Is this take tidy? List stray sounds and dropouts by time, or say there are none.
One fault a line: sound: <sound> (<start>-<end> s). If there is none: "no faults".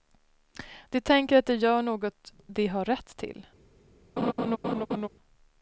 sound: laugh (4.2-5.1 s)